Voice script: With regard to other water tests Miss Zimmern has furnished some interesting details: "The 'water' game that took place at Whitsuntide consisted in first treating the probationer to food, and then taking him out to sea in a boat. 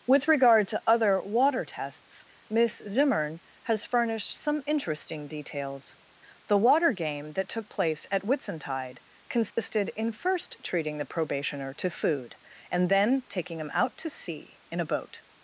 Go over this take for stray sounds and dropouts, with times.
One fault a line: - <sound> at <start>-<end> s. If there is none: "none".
- dropout at 9.5-9.6 s